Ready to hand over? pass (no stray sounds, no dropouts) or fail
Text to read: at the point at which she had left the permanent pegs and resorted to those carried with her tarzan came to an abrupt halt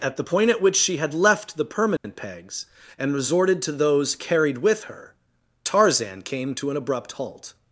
fail